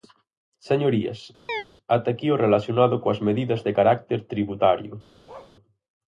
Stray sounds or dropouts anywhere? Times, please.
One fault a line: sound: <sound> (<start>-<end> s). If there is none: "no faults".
sound: chirp (1.5-1.6 s)
sound: bark (5.3-5.6 s)